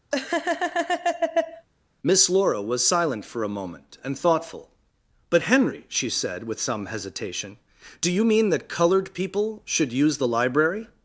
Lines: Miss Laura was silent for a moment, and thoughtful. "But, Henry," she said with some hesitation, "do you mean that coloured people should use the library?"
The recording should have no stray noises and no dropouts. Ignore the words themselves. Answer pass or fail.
fail